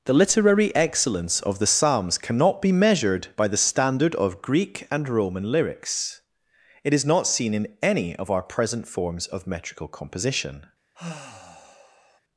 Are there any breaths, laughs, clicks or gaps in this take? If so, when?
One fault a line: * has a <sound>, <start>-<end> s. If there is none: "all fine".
* has a sigh, 10.9-12.2 s